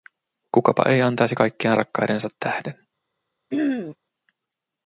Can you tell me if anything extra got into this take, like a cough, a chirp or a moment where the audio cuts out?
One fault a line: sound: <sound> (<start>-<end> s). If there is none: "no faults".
sound: throat clearing (3.5-4.0 s)